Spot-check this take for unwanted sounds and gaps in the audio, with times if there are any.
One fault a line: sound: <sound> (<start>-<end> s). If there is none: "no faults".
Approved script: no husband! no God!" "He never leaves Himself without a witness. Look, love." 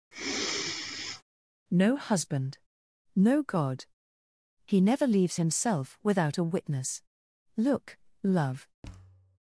sound: sigh (0.1-1.2 s)
sound: thud (8.8-9.4 s)